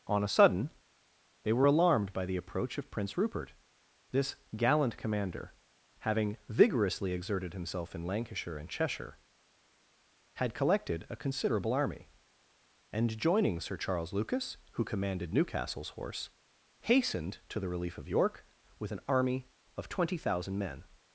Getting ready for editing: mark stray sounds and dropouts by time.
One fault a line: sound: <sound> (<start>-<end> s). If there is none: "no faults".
no faults